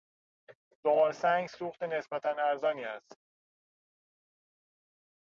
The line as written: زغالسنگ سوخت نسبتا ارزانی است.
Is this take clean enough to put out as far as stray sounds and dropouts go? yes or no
yes